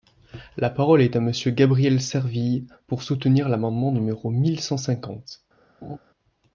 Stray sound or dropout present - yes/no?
yes